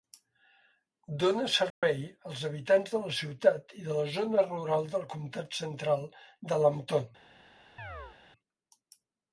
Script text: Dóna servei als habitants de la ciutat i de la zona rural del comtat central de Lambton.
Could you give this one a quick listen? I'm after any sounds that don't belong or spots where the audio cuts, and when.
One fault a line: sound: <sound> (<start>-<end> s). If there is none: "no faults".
sound: dropout (1.7-1.8 s)
sound: chirp (7.8-8.2 s)